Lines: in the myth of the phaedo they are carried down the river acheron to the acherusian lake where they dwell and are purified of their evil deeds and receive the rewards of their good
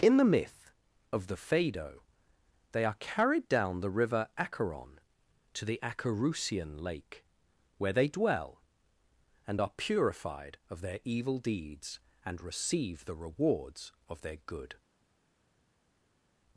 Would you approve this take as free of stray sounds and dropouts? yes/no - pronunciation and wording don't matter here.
yes